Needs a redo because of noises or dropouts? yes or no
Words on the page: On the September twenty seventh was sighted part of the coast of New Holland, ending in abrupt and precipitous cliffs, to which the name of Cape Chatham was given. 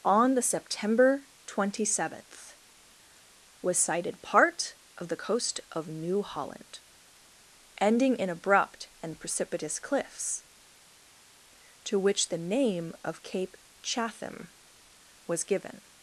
no